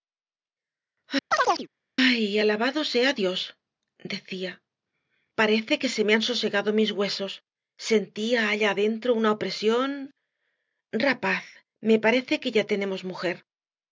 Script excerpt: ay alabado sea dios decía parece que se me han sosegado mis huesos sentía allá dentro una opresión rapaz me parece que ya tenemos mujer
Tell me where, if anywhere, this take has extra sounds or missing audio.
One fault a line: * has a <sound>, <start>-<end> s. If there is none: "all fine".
* has a chirp, 1.3-1.7 s